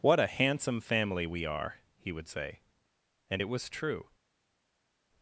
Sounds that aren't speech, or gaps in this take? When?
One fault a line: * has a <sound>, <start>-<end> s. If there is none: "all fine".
all fine